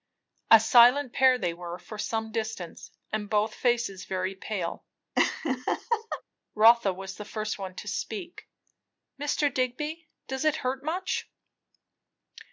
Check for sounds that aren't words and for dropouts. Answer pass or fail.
fail